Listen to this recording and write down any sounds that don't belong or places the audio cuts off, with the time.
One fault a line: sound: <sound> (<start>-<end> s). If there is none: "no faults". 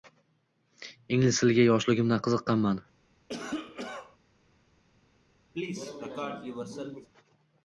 sound: cough (3.3-4.2 s)
sound: cough (5.5-7.1 s)